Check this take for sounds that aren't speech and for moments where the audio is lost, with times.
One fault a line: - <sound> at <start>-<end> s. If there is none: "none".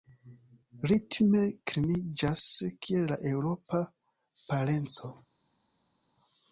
none